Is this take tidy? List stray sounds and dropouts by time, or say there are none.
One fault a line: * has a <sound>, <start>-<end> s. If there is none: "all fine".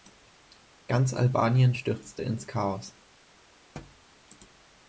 * has a thud, 3.8-4.1 s